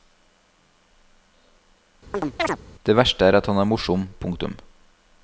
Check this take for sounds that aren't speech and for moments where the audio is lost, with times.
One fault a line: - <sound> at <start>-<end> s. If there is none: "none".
- chirp at 2.1-2.6 s